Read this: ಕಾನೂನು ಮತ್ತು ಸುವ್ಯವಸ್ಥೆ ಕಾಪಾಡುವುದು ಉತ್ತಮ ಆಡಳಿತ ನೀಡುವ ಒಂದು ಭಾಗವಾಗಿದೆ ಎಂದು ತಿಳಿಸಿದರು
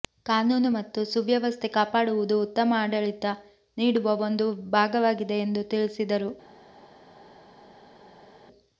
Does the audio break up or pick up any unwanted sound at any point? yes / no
no